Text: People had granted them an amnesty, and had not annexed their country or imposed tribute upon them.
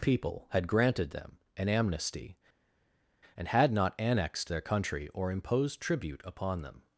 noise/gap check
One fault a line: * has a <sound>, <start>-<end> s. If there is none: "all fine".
all fine